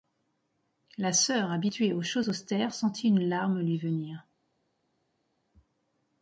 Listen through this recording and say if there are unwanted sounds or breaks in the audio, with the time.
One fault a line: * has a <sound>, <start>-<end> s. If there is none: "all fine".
all fine